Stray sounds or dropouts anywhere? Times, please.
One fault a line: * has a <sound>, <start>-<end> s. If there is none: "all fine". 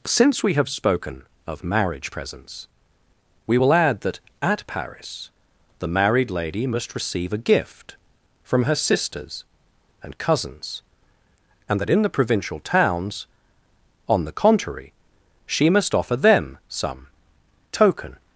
all fine